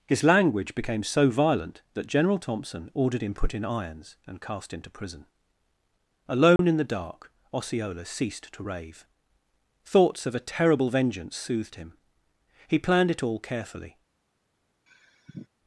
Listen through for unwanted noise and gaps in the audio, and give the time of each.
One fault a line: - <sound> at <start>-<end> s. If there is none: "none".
- dropout at 6.6-6.6 s
- sigh at 14.9-15.5 s